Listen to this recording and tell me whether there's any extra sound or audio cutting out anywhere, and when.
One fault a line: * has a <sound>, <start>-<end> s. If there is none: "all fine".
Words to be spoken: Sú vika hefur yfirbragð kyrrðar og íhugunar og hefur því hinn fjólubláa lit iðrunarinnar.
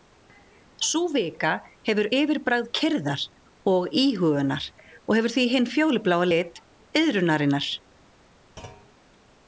* has a thud, 8.6-8.9 s